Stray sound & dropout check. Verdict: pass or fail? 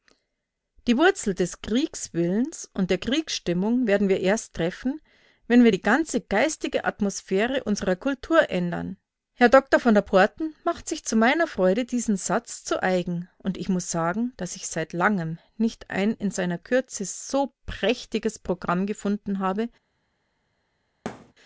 fail